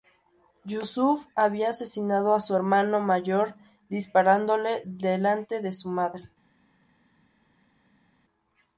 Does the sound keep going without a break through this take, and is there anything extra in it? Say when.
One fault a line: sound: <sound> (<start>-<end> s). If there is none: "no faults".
no faults